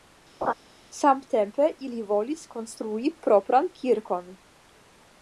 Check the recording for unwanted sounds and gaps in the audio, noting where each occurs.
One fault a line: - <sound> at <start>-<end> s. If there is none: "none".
- laugh at 0.4-0.5 s